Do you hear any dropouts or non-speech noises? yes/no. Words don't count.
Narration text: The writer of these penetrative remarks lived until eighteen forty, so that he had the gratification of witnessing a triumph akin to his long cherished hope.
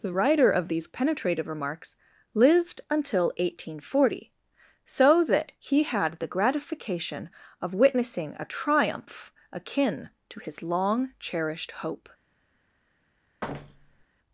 yes